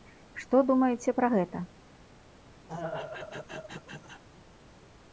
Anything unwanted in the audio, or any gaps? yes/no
yes